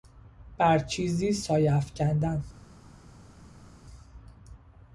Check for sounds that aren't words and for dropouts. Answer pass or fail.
pass